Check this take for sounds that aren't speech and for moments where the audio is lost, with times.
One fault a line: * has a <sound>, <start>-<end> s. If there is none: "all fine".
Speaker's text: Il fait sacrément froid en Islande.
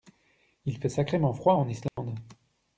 * has a dropout, 1.9-2.0 s